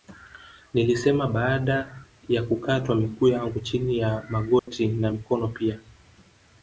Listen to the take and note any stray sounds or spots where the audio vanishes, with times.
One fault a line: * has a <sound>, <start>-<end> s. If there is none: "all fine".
* has a dropout, 4.6-4.7 s